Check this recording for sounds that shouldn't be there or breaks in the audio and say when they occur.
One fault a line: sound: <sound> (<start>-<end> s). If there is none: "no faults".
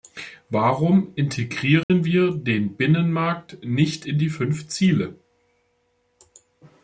sound: dropout (1.8-1.9 s)